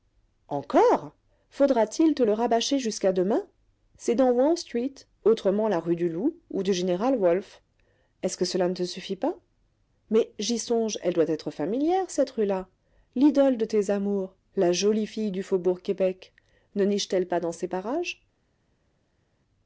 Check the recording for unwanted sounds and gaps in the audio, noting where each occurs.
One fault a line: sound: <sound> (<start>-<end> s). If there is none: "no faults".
no faults